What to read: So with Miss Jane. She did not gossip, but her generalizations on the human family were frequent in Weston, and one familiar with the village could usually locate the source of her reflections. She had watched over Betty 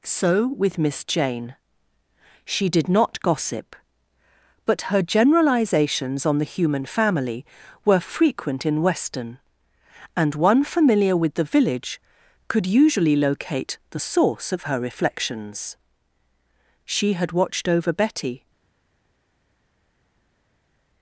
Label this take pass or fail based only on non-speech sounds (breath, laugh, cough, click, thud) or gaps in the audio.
pass